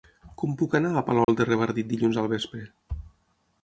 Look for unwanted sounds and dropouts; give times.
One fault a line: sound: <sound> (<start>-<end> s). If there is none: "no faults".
sound: dropout (1.2-1.3 s)